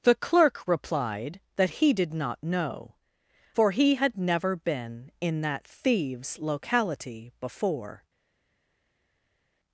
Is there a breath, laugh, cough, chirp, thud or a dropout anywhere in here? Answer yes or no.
no